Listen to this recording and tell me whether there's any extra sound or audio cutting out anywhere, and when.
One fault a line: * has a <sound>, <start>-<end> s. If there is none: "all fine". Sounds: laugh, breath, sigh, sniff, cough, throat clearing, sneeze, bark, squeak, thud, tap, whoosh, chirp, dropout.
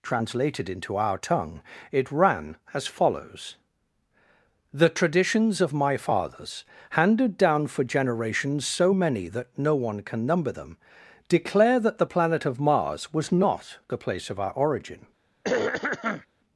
* has a throat clearing, 15.4-16.3 s